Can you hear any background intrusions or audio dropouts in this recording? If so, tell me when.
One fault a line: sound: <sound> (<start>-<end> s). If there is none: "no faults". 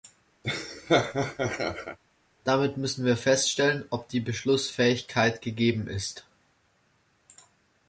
sound: laugh (0.4-2.0 s)